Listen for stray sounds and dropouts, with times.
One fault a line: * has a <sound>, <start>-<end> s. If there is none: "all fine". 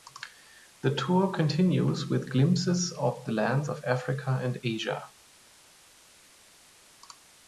all fine